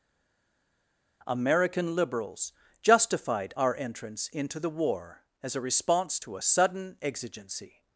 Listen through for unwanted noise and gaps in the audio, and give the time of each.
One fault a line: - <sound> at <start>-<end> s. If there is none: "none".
none